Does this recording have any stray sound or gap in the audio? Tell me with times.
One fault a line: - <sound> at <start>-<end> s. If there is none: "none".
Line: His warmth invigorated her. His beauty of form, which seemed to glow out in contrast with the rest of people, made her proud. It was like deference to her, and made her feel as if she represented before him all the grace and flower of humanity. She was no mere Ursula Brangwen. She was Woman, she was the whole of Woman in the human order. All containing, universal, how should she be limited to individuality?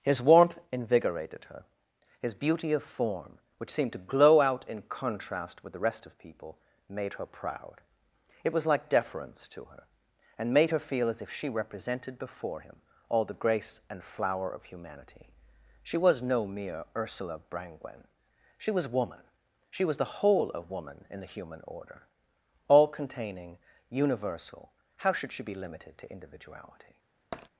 - tap at 27.3-27.5 s